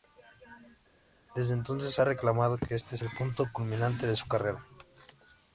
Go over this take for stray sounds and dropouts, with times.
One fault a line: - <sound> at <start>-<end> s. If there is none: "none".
none